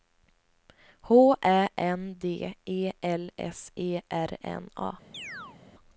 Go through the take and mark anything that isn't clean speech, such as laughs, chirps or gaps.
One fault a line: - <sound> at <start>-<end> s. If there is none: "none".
- chirp at 5.1-5.6 s